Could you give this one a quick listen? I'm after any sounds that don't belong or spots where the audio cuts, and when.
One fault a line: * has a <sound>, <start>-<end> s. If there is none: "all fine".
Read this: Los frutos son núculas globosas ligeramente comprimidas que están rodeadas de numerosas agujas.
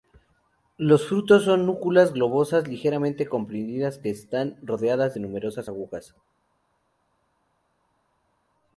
all fine